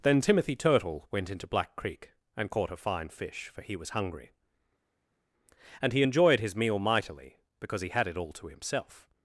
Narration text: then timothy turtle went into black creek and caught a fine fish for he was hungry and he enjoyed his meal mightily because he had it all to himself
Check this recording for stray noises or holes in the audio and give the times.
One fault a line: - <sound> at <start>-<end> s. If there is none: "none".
none